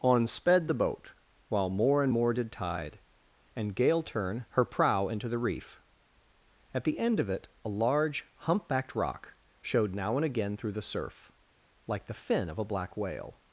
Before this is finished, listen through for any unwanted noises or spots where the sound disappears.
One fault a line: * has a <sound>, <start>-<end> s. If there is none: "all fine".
all fine